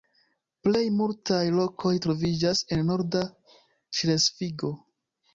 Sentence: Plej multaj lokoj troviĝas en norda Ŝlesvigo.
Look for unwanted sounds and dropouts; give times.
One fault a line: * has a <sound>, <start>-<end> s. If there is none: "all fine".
all fine